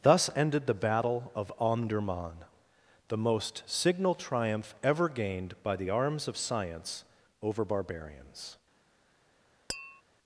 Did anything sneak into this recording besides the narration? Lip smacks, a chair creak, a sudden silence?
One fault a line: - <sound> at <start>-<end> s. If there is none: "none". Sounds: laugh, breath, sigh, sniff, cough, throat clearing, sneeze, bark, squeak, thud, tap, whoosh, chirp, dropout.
- tap at 9.7-10.0 s